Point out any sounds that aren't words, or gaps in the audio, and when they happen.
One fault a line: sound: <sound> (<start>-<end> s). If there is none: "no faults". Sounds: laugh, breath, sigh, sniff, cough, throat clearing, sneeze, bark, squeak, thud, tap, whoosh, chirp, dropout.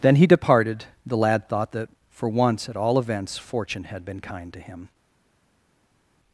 no faults